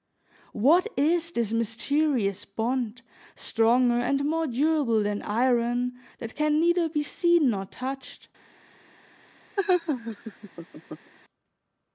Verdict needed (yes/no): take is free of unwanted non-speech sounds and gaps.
no